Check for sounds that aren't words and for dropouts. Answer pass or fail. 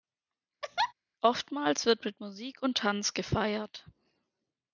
fail